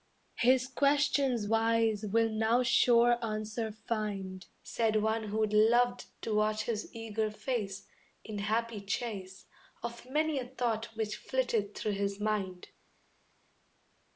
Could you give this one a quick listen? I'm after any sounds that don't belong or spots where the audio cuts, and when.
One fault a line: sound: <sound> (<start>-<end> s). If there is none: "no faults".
no faults